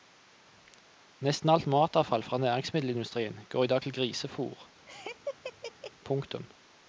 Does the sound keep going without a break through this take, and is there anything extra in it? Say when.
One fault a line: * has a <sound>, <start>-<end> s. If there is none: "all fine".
* has a laugh, 4.9-5.9 s